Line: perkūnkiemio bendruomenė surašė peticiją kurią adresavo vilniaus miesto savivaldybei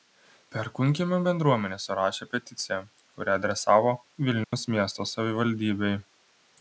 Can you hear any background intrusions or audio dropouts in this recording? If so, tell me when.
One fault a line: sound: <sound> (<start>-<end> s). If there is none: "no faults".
sound: dropout (4.4-4.5 s)